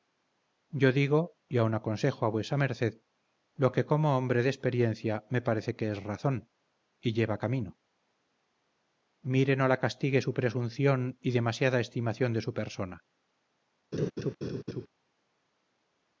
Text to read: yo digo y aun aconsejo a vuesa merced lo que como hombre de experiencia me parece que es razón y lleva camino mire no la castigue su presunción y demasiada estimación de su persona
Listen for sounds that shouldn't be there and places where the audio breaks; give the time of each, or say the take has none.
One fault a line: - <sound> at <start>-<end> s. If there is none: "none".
- laugh at 13.9-14.9 s